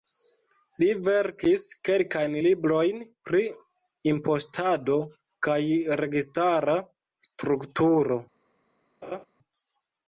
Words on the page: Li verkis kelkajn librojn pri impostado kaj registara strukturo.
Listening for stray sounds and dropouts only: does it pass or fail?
fail